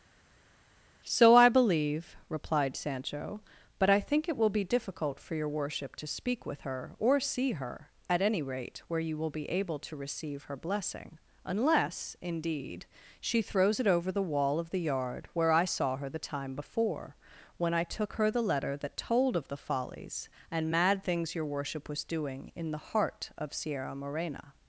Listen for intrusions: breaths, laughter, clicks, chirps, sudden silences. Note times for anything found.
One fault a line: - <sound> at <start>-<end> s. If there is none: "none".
none